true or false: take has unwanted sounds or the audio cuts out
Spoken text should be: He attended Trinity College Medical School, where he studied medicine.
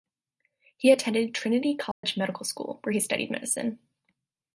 true